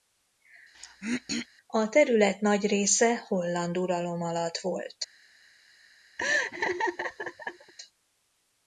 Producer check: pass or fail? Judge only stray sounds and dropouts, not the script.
fail